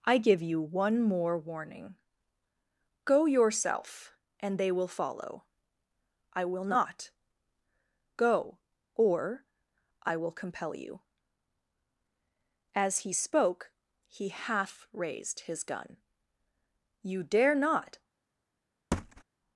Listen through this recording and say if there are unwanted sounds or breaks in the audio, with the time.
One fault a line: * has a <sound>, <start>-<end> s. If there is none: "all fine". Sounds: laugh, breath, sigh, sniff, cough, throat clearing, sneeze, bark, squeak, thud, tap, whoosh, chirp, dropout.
* has a thud, 18.9-19.2 s